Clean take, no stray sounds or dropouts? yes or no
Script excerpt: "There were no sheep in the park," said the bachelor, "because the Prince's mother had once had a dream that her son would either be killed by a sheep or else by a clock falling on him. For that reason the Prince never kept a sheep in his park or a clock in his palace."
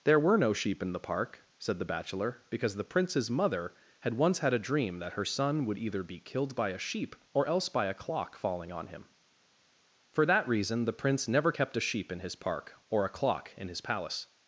yes